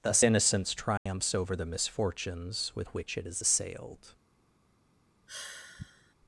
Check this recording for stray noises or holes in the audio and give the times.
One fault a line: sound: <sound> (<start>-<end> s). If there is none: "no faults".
sound: dropout (1.0-1.1 s)
sound: sigh (5.3-6.1 s)